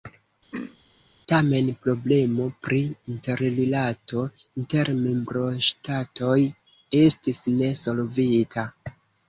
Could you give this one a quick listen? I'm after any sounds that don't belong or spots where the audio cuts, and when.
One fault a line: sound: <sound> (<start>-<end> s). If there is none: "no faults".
sound: throat clearing (0.5-0.8 s)